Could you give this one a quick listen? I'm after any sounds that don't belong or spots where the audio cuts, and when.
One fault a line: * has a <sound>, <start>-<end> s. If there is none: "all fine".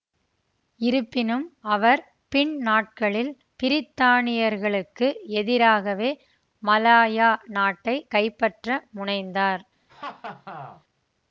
* has a laugh, 9.9-10.8 s